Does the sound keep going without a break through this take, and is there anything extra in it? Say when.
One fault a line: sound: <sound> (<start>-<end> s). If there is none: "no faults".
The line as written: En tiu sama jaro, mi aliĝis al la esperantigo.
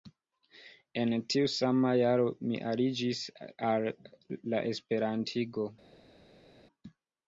no faults